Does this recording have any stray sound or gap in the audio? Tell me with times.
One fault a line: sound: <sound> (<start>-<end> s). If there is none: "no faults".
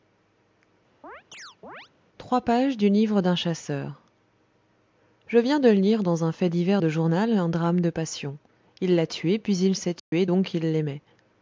sound: chirp (1.0-1.9 s)
sound: dropout (10.0-10.1 s)